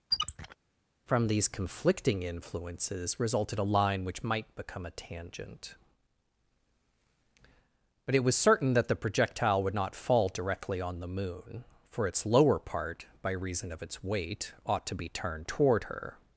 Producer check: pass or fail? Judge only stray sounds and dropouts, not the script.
fail